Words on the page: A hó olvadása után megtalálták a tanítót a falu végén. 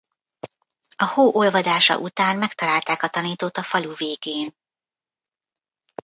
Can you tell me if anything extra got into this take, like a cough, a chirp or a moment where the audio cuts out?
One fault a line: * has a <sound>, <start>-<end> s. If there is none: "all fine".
all fine